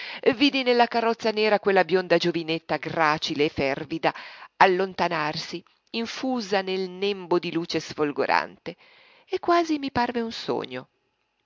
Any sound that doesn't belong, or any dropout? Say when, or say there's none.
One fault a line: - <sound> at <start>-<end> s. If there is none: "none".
none